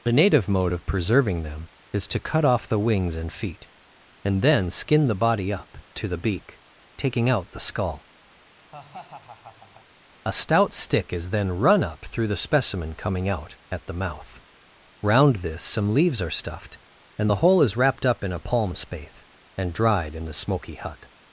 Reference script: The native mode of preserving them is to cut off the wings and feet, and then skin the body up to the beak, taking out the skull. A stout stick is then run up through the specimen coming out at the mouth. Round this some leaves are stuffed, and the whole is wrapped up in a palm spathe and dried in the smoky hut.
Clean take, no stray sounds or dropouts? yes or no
no